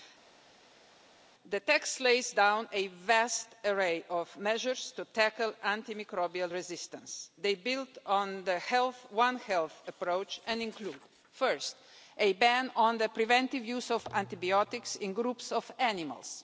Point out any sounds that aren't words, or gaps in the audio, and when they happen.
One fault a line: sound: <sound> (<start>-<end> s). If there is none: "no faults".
no faults